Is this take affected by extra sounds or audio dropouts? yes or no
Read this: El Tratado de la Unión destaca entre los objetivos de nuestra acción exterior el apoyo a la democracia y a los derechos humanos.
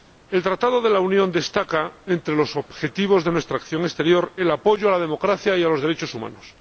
no